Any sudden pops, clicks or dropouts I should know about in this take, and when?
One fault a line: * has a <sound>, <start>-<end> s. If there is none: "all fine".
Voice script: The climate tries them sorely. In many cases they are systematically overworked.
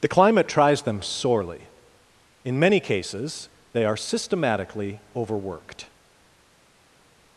all fine